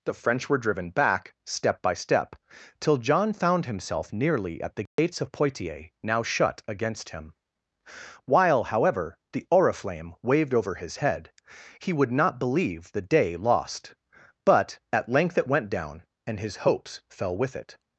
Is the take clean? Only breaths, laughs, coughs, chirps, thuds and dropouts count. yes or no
no